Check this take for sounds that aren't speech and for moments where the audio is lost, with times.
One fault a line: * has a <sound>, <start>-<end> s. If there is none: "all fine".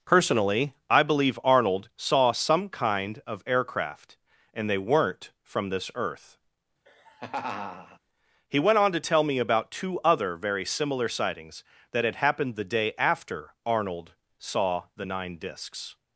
* has a laugh, 6.9-8.0 s